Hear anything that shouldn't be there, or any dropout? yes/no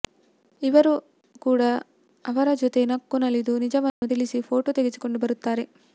yes